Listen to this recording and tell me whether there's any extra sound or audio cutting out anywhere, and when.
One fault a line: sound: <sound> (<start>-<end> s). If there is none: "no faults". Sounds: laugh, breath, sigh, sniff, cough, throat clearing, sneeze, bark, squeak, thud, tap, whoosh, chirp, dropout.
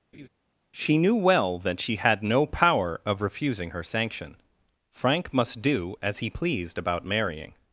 sound: laugh (0.1-0.3 s)